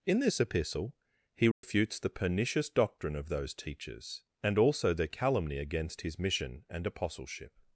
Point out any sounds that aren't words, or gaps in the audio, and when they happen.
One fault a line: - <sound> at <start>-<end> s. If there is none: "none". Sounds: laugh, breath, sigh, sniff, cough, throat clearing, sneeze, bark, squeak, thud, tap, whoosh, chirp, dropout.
- dropout at 1.5-1.6 s